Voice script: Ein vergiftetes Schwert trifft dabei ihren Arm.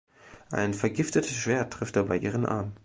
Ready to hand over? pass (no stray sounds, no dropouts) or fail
pass